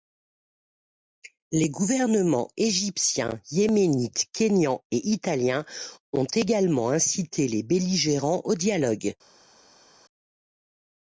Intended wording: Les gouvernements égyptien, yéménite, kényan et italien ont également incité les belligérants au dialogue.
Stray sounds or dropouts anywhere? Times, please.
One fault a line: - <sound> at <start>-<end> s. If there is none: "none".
none